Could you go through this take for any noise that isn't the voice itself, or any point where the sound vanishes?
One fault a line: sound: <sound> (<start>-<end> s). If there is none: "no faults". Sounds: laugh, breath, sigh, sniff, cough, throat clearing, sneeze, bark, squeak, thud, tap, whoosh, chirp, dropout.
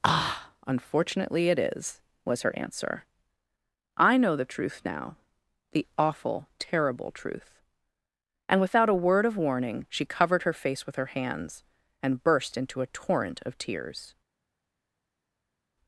no faults